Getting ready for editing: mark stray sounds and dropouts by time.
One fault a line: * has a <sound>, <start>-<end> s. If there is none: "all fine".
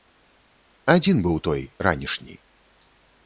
all fine